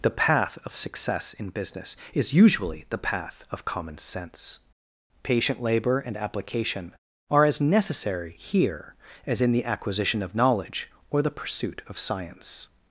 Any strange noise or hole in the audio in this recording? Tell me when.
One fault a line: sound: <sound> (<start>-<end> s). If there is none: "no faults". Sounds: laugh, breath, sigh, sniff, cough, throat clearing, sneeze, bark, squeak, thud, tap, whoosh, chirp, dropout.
no faults